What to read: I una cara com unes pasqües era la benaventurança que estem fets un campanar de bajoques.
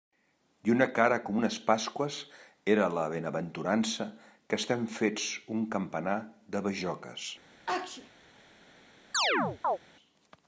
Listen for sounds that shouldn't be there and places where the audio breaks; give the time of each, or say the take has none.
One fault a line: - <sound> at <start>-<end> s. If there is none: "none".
- sneeze at 7.7-8.1 s
- chirp at 9.1-9.8 s